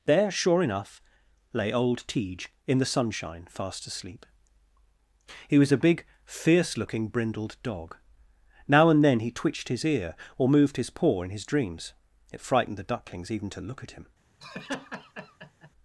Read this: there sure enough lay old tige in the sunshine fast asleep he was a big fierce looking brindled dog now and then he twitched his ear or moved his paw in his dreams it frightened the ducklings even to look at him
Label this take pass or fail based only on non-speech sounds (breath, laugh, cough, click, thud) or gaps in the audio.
fail